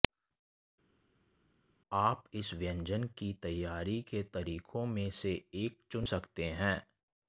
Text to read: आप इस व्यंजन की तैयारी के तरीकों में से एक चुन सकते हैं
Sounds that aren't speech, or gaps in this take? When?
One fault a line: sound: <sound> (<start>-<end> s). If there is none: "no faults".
no faults